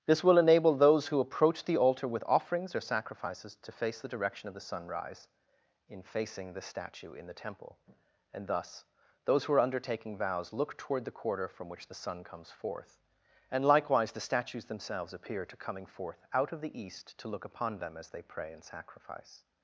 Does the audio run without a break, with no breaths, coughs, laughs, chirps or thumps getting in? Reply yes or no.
yes